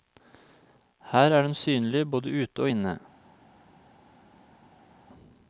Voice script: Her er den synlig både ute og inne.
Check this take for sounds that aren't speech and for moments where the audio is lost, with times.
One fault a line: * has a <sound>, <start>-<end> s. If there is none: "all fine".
all fine